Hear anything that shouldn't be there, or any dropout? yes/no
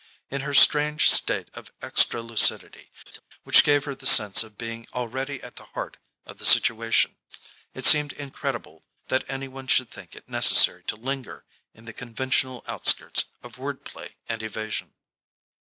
yes